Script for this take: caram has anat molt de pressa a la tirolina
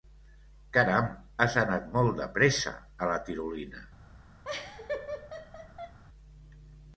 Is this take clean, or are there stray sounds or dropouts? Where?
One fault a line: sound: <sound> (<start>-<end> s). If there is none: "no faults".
sound: laugh (4.4-6.0 s)